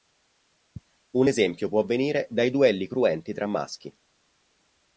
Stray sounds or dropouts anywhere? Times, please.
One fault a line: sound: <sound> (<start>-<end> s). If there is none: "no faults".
no faults